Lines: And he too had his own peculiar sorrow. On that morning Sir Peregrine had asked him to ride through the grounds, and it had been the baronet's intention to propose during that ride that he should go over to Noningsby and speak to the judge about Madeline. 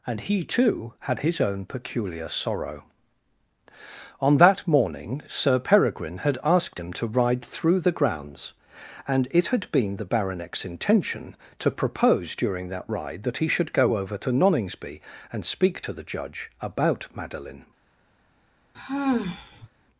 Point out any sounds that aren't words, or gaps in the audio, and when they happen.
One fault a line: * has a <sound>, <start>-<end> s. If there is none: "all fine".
* has a sigh, 18.7-19.7 s